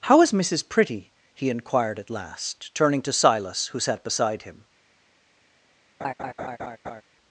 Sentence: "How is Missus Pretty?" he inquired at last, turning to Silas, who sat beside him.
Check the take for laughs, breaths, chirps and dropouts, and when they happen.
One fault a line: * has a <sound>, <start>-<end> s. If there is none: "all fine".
* has a laugh, 6.0-7.0 s